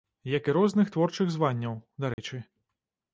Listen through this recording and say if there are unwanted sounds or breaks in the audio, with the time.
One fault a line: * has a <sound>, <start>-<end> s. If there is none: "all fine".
* has a dropout, 2.1-2.2 s